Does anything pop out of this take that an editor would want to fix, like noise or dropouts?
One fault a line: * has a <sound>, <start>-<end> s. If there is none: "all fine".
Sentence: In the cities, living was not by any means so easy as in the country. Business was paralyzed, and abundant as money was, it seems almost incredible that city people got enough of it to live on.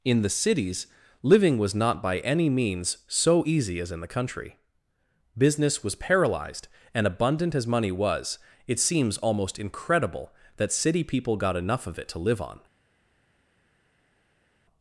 all fine